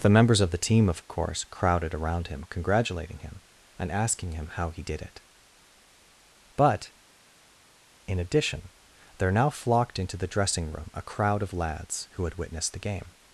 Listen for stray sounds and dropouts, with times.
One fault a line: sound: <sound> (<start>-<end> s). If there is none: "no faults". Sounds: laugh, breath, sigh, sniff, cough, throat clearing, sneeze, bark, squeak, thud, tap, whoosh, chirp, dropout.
no faults